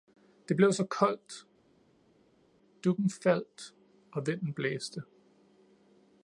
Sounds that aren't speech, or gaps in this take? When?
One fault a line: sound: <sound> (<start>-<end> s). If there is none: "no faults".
no faults